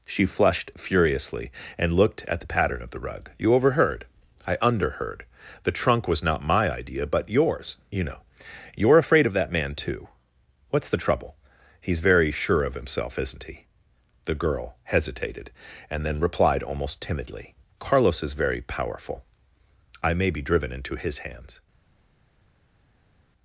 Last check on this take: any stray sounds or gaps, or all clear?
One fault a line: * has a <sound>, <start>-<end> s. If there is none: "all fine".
all fine